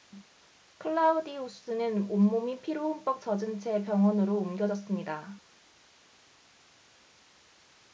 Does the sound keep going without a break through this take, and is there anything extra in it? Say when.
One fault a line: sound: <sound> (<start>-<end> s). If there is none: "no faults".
no faults